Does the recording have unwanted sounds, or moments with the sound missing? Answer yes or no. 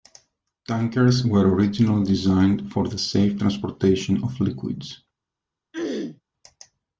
yes